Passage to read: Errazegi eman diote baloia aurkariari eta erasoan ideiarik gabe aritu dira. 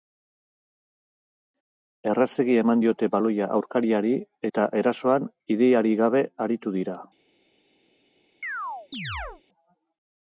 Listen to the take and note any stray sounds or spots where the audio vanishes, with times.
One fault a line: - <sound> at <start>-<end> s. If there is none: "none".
- chirp at 8.4-9.4 s